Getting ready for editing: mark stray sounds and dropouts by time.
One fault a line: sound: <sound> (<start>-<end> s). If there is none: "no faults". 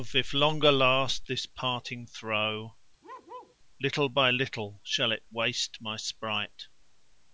sound: bark (3.0-3.6 s)